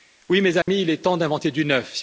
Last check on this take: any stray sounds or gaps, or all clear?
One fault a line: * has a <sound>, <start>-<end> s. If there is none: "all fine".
* has a dropout, 0.6-0.7 s